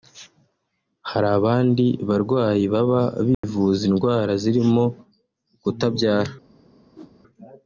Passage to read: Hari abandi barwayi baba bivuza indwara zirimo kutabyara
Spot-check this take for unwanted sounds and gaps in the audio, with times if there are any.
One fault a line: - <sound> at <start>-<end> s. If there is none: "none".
- dropout at 3.3-3.4 s
- whoosh at 7.0-7.1 s